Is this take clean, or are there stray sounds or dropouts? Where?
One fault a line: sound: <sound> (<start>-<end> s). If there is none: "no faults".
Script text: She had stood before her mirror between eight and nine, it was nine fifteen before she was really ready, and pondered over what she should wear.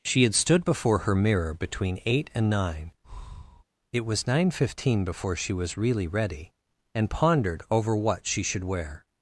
sound: breath (3.0-3.6 s)